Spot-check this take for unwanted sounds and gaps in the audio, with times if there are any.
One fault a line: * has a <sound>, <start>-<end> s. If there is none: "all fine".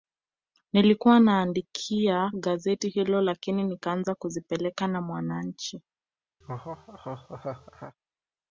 * has a laugh, 6.4-8.0 s